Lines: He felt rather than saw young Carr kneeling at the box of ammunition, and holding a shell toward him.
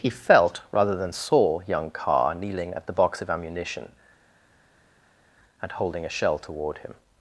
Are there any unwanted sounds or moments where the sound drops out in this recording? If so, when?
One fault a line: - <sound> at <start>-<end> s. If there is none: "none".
none